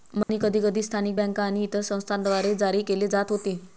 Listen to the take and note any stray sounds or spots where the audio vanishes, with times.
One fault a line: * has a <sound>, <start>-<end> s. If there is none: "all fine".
* has a dropout, 0.2-0.3 s